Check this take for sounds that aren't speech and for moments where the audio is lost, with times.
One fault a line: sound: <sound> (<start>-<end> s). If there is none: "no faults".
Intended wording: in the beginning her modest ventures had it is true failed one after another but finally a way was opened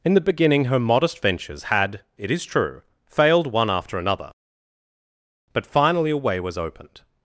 no faults